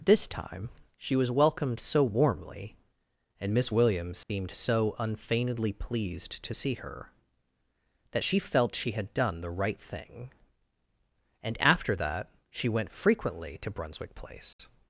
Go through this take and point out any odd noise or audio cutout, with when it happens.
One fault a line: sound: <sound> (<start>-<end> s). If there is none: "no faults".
sound: dropout (4.2-4.3 s)
sound: dropout (14.5-14.6 s)